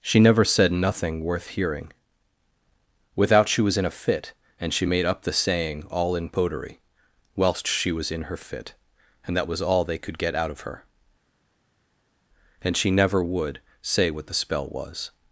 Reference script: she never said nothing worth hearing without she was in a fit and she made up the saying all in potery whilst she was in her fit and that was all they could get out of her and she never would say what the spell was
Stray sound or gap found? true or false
false